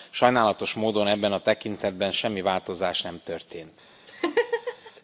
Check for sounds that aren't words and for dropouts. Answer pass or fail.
fail